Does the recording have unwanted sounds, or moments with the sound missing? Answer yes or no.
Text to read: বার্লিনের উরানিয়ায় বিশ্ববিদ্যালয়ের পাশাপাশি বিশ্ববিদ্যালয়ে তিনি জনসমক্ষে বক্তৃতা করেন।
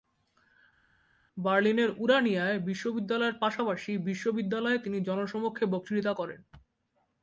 no